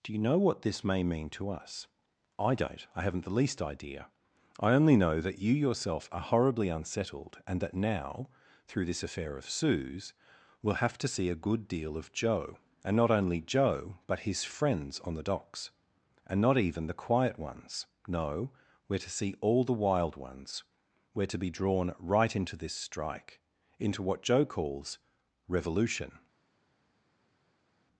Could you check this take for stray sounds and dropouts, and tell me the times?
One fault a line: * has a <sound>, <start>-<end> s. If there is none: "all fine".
all fine